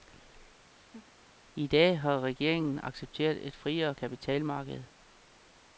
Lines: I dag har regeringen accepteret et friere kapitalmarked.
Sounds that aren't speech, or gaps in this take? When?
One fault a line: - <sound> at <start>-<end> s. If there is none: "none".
- laugh at 0.7-1.1 s